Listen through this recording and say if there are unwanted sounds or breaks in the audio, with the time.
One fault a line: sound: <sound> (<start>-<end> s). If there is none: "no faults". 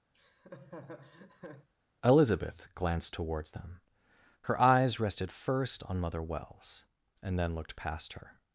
sound: laugh (0.1-1.7 s)